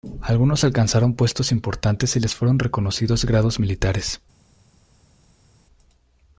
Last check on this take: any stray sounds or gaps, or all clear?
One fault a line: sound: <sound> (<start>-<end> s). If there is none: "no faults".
no faults